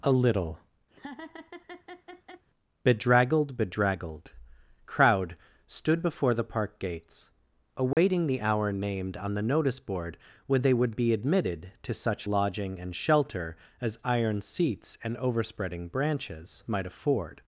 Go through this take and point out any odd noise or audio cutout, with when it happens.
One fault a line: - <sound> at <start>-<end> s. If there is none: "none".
- laugh at 0.9-2.5 s
- dropout at 7.9-8.0 s